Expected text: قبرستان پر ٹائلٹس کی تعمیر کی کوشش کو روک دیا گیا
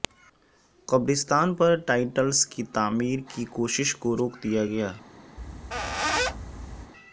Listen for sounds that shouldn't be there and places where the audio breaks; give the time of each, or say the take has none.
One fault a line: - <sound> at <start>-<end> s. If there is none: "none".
- squeak at 5.4-6.9 s